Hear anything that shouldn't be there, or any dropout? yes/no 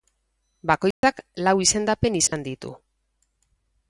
yes